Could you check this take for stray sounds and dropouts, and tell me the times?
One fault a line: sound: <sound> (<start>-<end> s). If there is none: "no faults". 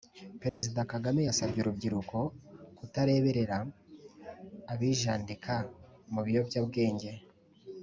sound: dropout (0.5-0.6 s)